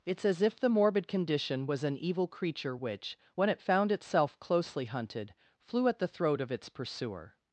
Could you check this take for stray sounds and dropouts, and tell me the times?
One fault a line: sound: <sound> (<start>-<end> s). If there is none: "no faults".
no faults